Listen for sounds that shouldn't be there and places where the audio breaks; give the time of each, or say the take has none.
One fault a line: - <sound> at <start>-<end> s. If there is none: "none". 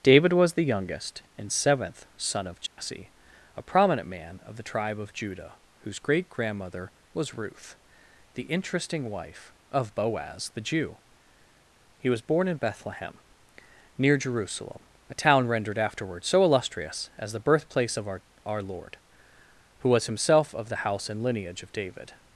- dropout at 2.7-2.8 s